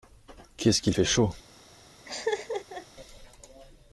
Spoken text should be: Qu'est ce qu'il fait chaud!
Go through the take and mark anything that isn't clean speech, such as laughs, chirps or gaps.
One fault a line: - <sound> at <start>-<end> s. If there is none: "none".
- laugh at 2.0-2.9 s